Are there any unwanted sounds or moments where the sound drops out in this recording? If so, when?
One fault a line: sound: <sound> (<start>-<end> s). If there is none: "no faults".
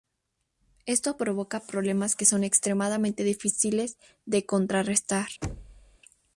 sound: thud (5.4-6.0 s)